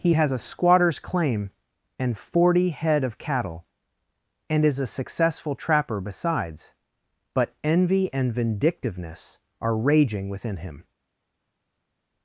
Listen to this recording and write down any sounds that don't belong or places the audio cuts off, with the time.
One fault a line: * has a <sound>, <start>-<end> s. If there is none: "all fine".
all fine